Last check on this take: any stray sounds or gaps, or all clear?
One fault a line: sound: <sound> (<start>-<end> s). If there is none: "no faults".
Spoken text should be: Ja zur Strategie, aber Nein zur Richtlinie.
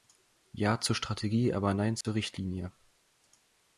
sound: dropout (2.0-2.0 s)